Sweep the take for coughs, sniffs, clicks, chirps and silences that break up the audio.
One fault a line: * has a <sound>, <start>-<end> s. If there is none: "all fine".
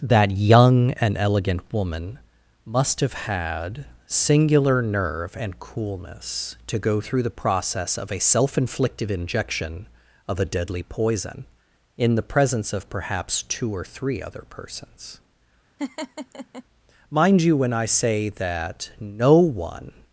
* has a laugh, 15.8-16.6 s